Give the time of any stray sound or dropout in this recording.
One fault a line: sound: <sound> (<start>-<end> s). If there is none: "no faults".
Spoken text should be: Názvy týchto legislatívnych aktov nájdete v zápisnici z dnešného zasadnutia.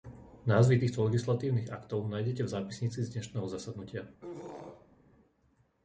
sound: throat clearing (4.2-5.0 s)